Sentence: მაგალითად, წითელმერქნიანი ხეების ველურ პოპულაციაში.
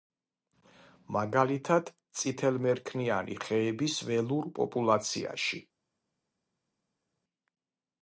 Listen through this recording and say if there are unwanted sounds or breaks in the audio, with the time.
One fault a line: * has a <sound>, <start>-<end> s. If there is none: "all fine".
all fine